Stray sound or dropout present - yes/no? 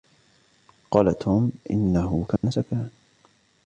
yes